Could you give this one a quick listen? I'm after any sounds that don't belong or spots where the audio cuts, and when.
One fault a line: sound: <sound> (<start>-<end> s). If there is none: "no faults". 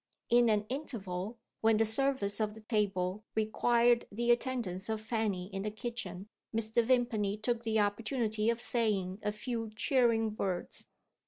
sound: dropout (2.6-2.7 s)